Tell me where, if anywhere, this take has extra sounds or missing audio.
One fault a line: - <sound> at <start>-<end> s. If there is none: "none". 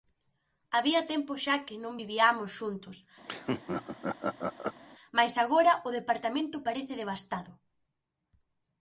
- laugh at 3.3-4.8 s